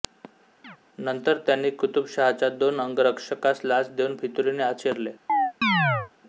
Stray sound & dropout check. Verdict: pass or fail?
fail